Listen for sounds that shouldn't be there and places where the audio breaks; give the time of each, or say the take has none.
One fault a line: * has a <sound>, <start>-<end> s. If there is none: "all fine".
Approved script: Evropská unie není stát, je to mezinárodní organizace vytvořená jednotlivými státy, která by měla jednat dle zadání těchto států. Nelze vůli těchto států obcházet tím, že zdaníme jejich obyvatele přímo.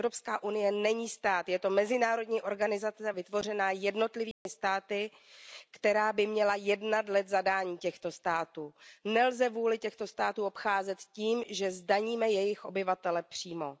* has a dropout, 4.3-4.5 s